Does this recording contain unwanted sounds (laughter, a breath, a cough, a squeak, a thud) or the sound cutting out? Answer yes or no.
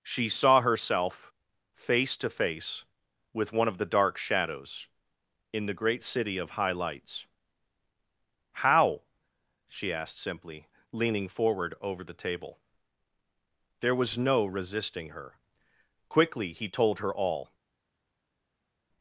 no